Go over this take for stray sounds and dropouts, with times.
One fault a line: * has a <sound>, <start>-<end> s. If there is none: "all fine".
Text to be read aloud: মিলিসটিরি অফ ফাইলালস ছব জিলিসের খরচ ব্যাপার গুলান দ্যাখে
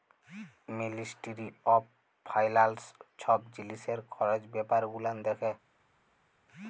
all fine